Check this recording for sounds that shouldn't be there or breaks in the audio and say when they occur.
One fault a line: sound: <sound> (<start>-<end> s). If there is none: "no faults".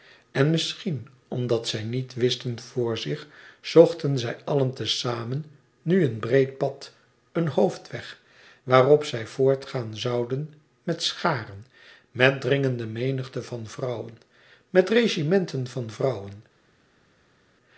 no faults